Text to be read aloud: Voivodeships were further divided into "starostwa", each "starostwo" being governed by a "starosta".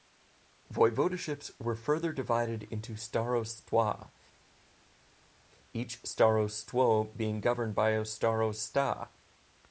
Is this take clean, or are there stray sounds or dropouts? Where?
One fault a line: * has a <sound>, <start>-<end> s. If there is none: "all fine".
all fine